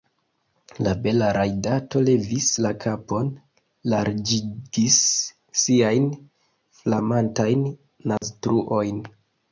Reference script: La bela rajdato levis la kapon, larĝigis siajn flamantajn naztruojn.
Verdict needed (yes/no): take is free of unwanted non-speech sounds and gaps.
no